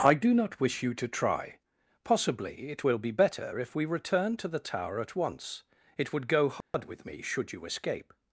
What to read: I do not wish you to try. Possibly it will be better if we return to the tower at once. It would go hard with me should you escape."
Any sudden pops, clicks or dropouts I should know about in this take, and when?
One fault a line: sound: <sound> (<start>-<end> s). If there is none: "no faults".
sound: dropout (6.6-6.7 s)